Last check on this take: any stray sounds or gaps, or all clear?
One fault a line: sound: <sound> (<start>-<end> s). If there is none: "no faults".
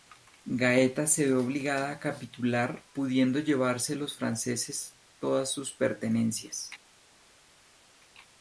no faults